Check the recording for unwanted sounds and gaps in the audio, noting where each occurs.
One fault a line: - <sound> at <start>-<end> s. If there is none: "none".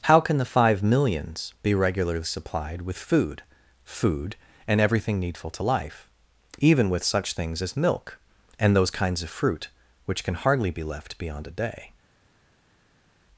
none